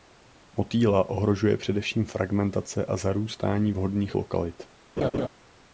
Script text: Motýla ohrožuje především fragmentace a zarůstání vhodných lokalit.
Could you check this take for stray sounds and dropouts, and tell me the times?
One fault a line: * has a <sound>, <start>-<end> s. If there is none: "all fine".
* has a laugh, 5.0-5.3 s